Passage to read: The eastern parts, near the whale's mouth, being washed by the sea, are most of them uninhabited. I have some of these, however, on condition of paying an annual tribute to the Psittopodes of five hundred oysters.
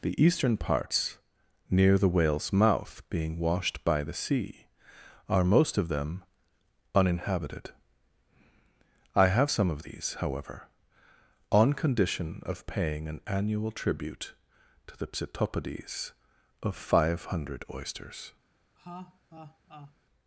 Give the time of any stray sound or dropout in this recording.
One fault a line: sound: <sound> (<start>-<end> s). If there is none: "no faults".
sound: laugh (18.8-19.9 s)